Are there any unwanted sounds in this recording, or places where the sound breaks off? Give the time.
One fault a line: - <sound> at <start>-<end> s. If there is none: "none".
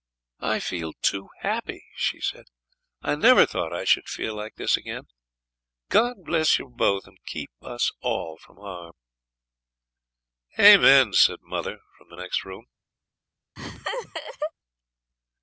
- laugh at 13.6-14.5 s